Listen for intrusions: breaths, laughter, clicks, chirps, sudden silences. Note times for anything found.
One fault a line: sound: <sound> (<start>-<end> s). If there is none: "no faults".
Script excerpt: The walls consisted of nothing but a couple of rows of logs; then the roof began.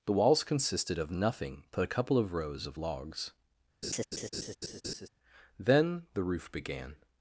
sound: laugh (3.8-5.1 s)